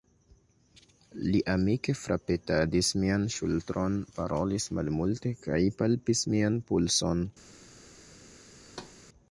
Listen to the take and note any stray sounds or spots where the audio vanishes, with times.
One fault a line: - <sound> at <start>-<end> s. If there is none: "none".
- thud at 8.6-9.0 s